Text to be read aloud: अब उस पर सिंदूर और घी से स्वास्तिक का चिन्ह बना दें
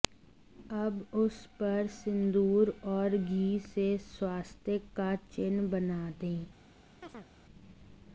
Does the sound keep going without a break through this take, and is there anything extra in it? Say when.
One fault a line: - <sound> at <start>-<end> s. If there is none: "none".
- chirp at 7.0-7.3 s